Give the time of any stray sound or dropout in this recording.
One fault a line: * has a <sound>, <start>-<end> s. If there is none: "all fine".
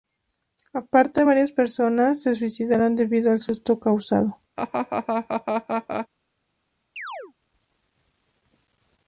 * has a laugh, 4.6-6.1 s
* has a chirp, 7.0-7.3 s